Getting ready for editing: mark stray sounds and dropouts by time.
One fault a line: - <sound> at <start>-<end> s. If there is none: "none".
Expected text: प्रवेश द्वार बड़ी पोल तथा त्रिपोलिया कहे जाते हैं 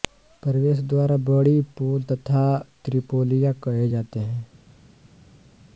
none